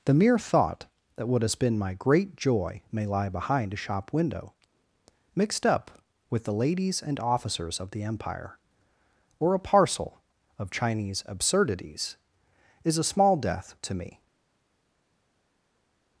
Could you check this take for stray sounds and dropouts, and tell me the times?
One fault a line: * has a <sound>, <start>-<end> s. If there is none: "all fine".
all fine